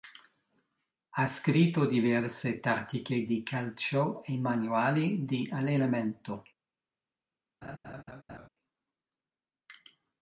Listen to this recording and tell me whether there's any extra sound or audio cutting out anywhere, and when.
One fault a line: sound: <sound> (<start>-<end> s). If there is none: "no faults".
sound: laugh (7.6-8.5 s)